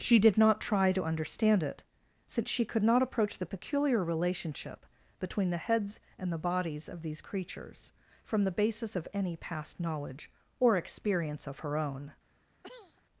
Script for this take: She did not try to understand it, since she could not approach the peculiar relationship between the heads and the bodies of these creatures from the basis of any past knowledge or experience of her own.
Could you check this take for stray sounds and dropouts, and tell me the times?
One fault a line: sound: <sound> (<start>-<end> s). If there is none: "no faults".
sound: cough (12.6-13.0 s)